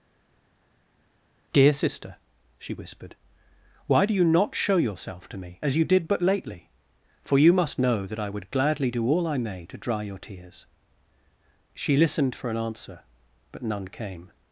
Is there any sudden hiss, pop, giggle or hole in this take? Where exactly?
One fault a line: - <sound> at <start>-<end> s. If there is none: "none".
none